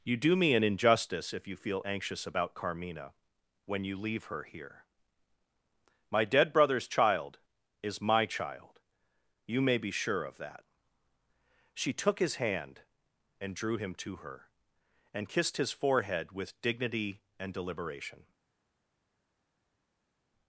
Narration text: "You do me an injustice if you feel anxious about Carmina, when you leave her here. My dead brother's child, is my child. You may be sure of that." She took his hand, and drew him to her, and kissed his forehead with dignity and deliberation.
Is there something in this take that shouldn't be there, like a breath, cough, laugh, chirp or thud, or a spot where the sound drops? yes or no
no